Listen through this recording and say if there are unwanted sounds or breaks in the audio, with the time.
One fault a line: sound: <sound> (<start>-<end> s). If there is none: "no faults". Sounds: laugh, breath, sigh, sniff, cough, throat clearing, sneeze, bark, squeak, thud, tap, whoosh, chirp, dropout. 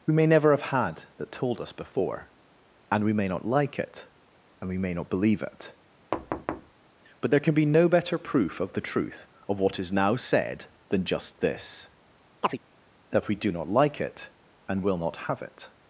sound: thud (6.1-6.7 s)
sound: chirp (12.4-12.6 s)